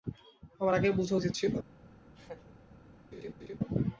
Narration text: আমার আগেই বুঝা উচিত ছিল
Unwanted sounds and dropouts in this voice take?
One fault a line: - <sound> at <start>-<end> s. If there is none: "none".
- laugh at 2.1-2.5 s
- laugh at 3.1-3.6 s